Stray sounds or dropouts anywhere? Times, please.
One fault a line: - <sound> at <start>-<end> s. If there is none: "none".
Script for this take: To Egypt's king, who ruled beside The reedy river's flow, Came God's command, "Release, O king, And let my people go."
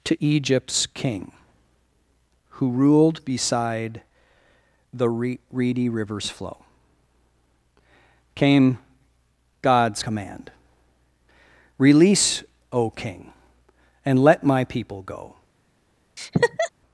- laugh at 16.2-16.7 s